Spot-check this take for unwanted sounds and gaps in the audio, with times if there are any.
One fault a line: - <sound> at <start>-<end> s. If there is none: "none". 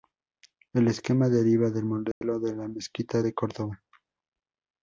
- dropout at 2.1-2.2 s